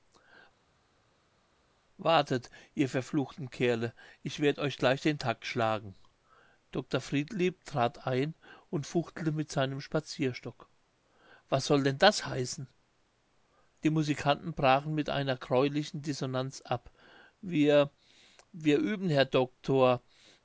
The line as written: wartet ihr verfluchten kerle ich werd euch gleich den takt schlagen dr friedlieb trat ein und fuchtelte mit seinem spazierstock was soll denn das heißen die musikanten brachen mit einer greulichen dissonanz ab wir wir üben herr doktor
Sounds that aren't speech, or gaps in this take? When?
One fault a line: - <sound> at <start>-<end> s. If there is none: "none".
none